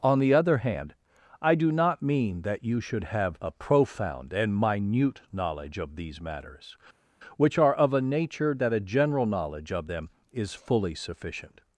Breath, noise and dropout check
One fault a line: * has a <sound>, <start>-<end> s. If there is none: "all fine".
all fine